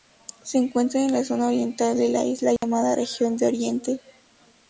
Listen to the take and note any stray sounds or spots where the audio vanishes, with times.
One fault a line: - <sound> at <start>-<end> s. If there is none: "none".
- dropout at 2.6-2.6 s